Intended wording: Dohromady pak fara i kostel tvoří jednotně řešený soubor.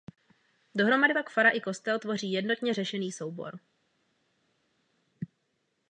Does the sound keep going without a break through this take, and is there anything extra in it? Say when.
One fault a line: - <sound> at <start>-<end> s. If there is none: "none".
none